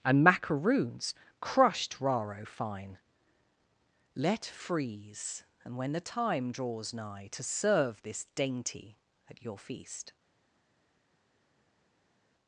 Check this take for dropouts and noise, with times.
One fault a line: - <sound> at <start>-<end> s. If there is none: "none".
none